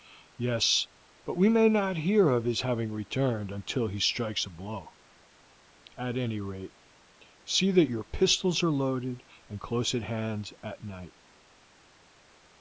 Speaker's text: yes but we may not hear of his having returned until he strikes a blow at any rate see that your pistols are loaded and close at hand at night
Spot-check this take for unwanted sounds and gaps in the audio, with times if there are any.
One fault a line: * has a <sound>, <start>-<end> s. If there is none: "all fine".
all fine